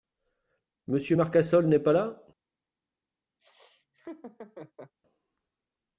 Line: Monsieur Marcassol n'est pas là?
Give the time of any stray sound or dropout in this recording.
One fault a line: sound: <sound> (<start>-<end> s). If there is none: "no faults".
sound: laugh (3.4-4.9 s)